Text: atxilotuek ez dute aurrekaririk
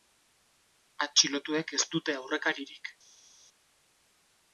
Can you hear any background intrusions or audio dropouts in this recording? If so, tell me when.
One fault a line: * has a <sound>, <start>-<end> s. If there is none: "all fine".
all fine